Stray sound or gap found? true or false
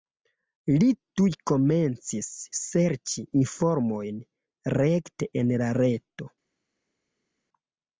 false